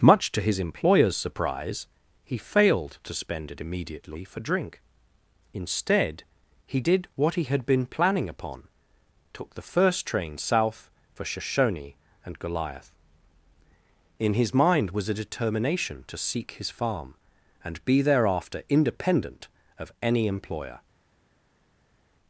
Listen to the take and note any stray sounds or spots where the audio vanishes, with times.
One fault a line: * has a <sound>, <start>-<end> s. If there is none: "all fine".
all fine